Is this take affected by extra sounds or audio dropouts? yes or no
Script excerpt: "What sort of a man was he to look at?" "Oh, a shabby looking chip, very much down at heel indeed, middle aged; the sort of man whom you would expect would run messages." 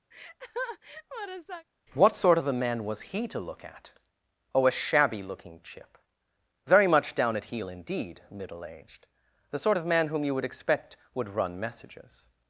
yes